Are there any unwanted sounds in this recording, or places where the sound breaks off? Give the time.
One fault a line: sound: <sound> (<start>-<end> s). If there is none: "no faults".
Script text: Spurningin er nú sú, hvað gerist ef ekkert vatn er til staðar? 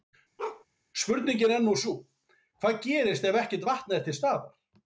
sound: bark (0.4-0.6 s)